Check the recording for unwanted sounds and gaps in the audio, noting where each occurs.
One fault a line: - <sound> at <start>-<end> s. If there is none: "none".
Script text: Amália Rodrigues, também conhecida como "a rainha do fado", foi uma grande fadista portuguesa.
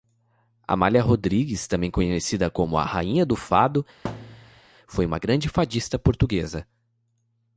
- thud at 4.0-4.6 s